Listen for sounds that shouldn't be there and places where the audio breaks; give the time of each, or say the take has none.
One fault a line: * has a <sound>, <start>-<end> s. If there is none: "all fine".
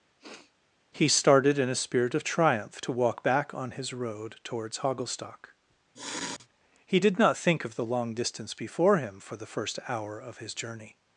* has a sniff, 0.2-0.5 s
* has a sniff, 5.9-6.5 s